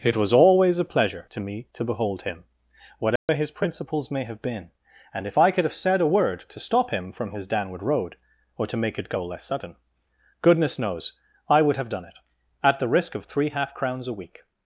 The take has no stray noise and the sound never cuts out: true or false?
false